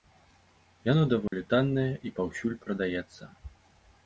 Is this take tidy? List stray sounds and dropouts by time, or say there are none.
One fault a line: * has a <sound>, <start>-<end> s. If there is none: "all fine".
* has a dropout, 1.3-1.3 s